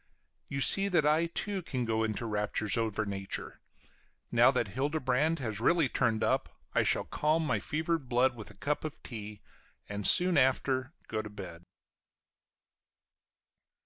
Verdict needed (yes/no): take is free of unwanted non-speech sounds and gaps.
yes